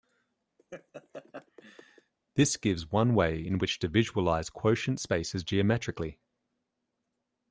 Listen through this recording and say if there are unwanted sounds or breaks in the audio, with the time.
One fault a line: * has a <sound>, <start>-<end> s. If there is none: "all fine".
* has a laugh, 0.6-2.1 s